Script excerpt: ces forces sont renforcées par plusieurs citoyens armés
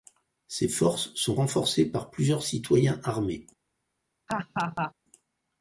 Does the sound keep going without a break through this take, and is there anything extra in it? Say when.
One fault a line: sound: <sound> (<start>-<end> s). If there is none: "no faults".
sound: laugh (4.3-4.9 s)